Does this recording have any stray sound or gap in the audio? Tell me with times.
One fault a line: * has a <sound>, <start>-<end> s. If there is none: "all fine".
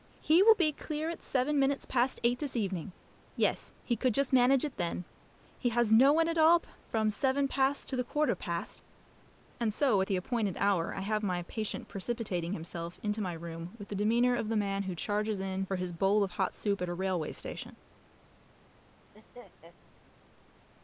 * has a laugh, 19.1-19.8 s